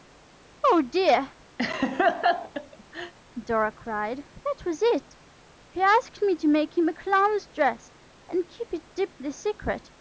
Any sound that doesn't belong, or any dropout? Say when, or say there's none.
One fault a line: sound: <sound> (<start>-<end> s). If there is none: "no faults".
sound: laugh (1.6-3.1 s)